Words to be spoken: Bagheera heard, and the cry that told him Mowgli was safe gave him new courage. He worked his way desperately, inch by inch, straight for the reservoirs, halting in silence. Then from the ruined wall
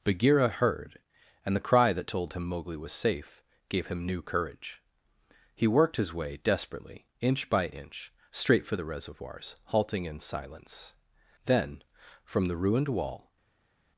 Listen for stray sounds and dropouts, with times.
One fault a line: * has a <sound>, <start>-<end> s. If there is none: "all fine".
all fine